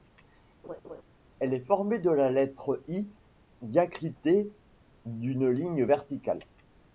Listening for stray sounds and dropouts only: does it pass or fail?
fail